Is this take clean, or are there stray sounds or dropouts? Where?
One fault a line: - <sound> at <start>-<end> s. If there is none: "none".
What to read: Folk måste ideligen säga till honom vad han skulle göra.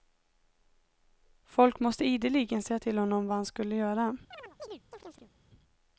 - chirp at 4.3-5.3 s